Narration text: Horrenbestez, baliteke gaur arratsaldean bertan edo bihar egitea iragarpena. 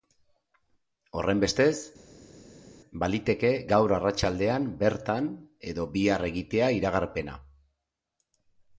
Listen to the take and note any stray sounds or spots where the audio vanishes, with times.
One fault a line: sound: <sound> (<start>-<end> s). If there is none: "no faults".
no faults